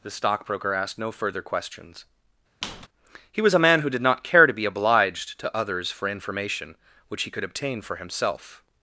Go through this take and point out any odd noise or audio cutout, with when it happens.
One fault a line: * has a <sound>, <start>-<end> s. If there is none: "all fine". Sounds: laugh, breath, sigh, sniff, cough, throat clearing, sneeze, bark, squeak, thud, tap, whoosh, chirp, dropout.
* has a squeak, 2.6-2.9 s